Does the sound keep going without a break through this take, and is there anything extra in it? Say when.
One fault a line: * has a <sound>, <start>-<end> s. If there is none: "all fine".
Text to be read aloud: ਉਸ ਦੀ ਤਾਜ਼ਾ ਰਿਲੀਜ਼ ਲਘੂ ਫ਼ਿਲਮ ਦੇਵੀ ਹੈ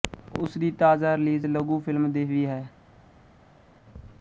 all fine